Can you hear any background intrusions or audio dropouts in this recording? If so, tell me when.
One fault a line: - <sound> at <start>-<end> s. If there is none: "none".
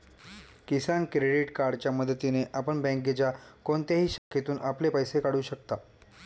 - dropout at 4.2-4.3 s